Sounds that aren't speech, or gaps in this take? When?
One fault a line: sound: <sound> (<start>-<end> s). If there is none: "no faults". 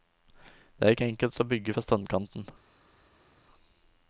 no faults